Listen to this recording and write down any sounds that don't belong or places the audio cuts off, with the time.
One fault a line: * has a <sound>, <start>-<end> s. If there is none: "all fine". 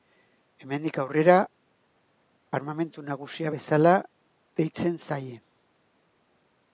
all fine